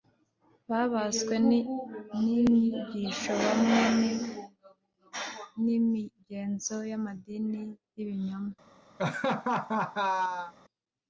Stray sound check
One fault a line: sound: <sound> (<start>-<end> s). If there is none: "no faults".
sound: laugh (9.0-10.5 s)